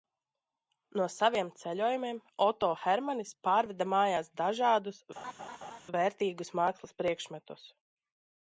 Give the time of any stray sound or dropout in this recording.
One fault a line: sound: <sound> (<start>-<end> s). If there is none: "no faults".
sound: laugh (5.2-5.8 s)